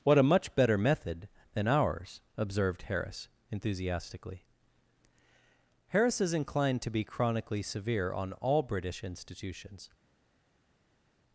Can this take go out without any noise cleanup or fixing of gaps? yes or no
yes